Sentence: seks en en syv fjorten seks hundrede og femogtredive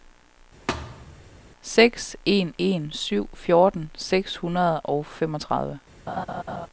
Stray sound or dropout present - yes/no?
yes